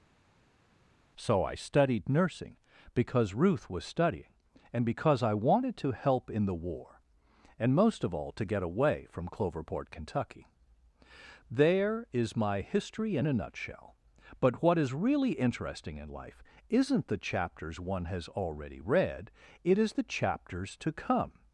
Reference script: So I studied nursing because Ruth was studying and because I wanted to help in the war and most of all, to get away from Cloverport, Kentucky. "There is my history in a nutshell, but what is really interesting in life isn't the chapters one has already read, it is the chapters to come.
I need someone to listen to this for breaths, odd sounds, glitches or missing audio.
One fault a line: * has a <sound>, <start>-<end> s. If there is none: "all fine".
all fine